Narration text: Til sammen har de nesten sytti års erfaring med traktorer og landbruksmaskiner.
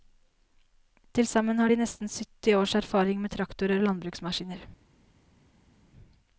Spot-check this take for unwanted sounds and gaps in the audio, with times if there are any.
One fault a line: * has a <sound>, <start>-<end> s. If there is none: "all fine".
all fine